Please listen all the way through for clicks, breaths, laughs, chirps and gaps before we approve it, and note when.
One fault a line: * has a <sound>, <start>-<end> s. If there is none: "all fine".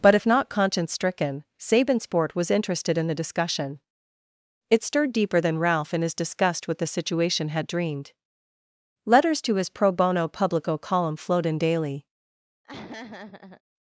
* has a laugh, 12.6-13.6 s